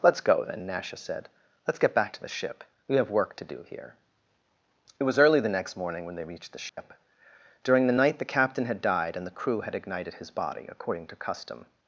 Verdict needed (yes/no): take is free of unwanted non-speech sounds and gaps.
no